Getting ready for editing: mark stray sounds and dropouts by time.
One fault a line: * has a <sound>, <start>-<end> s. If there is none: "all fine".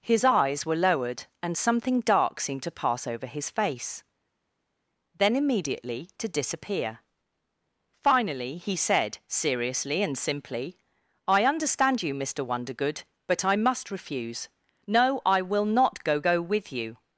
all fine